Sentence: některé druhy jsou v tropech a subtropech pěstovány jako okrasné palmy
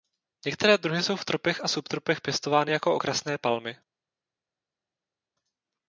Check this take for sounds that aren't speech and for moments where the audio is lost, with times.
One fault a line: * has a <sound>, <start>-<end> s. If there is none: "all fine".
all fine